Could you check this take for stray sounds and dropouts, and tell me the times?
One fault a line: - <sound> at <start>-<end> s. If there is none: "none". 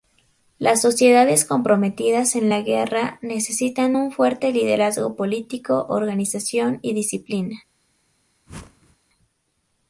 - whoosh at 8.5-9.0 s